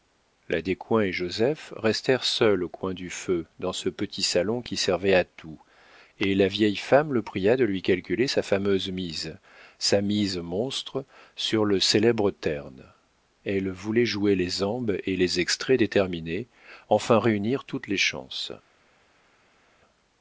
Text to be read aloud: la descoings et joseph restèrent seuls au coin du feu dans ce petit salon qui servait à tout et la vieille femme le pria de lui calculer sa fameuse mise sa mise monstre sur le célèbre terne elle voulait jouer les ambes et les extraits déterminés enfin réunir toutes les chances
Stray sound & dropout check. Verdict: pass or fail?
pass